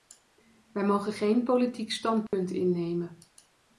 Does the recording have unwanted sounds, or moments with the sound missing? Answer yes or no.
yes